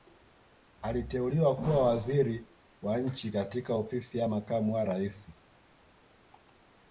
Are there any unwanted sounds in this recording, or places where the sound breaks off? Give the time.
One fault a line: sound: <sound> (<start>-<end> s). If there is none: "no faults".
no faults